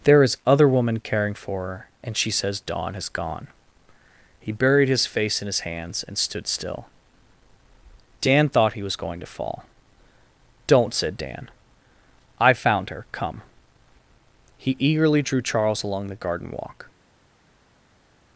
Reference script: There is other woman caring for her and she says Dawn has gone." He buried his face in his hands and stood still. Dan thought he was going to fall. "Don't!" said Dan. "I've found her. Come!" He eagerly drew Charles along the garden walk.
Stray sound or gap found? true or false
false